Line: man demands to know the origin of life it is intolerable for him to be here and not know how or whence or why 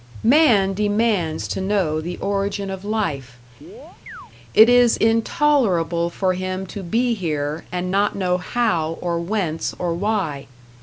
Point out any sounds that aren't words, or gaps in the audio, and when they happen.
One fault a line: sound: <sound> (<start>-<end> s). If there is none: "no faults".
sound: chirp (3.6-4.3 s)